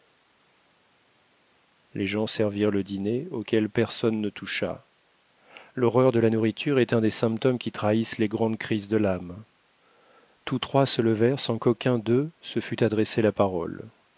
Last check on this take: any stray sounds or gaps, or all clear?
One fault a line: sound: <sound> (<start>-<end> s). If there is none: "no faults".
no faults